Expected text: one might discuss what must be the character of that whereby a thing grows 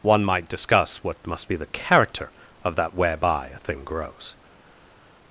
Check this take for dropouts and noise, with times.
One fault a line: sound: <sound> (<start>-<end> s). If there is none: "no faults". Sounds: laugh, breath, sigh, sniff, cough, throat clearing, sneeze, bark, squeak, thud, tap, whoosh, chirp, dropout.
no faults